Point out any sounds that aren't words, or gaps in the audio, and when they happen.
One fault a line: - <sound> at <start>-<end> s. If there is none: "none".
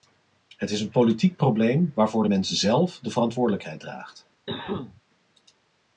- cough at 4.5-5.0 s